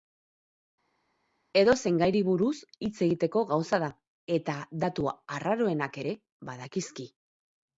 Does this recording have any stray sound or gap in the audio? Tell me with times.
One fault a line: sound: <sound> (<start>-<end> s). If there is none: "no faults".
no faults